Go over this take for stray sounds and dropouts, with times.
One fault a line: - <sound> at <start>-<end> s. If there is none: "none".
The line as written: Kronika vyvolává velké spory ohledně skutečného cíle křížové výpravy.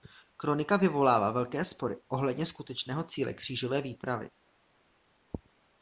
none